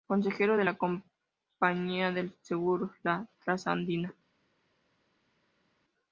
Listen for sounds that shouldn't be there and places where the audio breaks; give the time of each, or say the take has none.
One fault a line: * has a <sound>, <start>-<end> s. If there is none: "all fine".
all fine